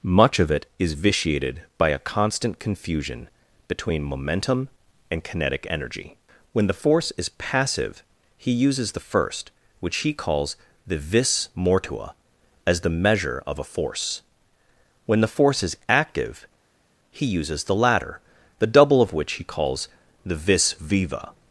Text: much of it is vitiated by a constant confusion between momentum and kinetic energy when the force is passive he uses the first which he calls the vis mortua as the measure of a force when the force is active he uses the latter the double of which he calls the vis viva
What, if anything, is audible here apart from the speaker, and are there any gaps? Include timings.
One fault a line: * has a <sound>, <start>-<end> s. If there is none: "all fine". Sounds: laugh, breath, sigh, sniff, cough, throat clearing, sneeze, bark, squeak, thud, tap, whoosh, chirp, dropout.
all fine